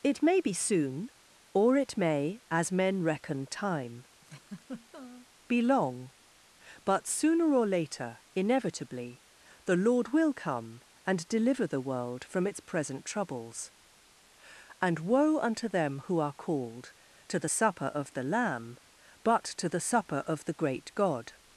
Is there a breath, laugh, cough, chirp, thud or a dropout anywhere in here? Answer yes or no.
yes